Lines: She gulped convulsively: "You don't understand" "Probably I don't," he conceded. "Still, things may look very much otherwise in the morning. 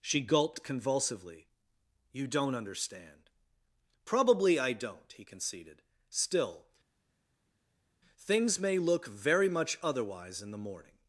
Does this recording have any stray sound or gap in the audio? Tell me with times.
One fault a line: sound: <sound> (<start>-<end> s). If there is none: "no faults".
no faults